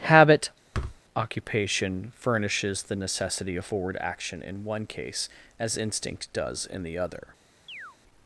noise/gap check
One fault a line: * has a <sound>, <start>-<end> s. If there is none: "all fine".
* has a thud, 0.7-1.0 s
* has a chirp, 7.7-8.0 s